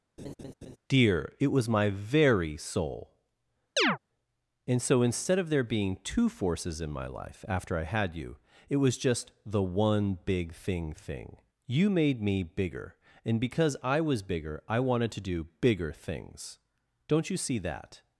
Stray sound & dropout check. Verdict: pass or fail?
fail